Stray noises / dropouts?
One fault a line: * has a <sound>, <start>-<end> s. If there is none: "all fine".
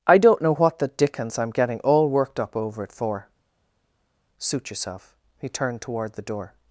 all fine